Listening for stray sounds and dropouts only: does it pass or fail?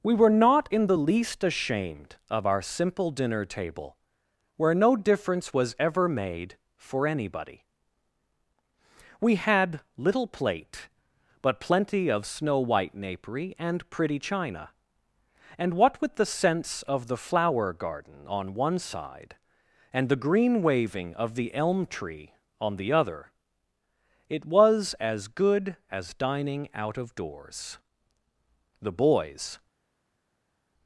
pass